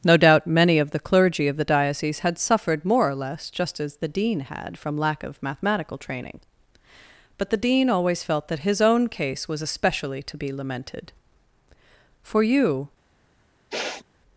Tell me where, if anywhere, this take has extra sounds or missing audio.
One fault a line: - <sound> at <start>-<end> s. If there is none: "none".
- sniff at 13.7-14.0 s